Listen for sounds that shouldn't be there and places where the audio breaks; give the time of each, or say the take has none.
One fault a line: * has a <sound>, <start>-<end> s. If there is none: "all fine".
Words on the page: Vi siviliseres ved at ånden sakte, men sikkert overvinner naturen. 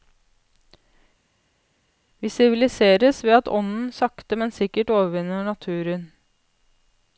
all fine